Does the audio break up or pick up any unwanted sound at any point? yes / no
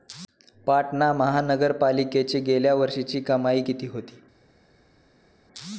no